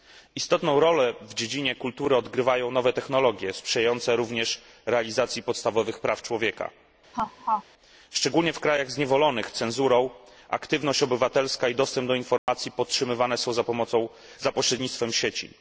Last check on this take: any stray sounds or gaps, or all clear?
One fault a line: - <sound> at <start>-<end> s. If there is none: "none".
- laugh at 7.1-7.6 s
- dropout at 12.4-12.5 s